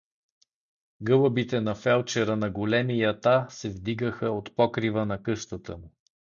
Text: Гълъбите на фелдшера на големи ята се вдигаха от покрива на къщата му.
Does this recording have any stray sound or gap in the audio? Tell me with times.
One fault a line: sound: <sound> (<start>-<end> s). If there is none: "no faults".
no faults